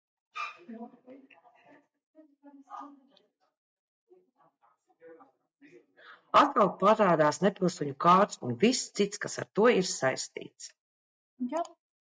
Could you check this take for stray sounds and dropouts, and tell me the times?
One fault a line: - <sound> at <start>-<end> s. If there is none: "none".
none